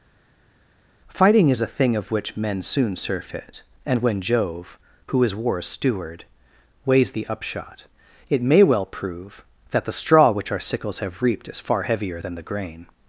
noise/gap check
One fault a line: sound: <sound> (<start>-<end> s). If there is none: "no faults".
no faults